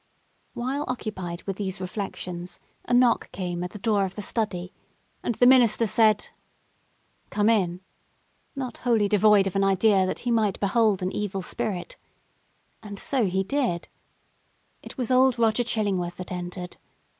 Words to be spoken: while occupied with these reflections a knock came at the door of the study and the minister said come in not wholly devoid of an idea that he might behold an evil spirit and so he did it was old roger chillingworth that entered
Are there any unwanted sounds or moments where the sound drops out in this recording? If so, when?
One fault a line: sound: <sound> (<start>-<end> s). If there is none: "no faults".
no faults